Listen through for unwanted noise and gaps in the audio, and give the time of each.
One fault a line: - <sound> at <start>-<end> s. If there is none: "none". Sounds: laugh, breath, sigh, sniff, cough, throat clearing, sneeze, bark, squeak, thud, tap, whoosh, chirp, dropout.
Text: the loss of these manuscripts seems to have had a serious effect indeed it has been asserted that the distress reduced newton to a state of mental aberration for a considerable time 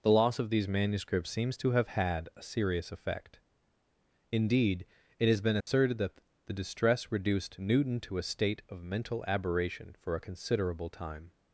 - dropout at 5.6-5.7 s